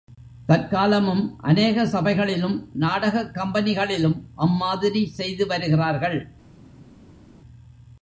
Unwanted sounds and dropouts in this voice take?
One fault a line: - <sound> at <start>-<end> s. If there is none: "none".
none